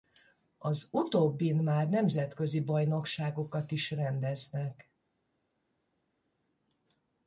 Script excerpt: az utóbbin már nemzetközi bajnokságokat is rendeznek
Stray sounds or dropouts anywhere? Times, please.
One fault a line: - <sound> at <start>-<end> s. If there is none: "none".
none